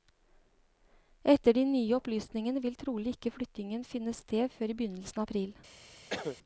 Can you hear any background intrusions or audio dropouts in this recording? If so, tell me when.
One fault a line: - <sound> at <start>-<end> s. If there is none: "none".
- cough at 6.1-6.4 s